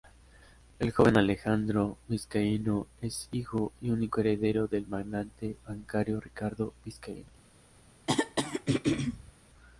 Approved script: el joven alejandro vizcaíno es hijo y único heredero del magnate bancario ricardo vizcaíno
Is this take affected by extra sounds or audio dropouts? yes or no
yes